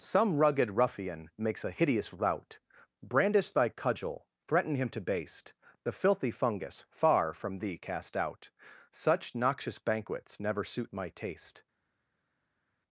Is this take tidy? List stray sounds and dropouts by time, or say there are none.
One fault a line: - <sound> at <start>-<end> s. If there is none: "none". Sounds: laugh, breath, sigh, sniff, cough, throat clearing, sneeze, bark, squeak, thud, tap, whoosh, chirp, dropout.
none